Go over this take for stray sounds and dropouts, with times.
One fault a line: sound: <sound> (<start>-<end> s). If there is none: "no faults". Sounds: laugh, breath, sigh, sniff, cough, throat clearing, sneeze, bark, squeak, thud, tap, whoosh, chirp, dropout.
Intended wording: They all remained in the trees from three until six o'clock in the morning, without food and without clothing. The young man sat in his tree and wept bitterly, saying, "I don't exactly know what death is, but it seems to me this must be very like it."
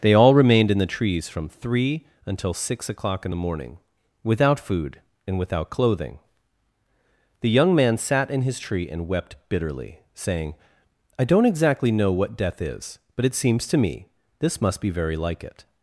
no faults